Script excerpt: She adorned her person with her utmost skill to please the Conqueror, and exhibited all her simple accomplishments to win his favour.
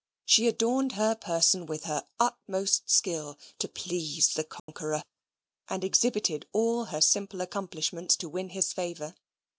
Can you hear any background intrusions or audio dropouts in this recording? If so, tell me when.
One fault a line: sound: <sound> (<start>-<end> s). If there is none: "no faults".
sound: dropout (4.6-4.7 s)